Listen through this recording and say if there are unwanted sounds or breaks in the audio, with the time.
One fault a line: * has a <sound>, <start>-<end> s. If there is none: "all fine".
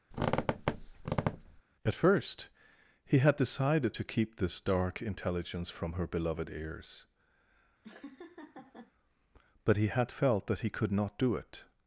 * has a squeak, 0.1-1.6 s
* has a laugh, 7.8-8.9 s